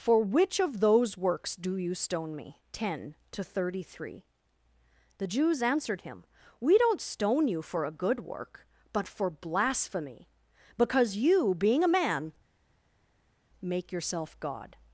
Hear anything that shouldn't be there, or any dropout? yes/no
no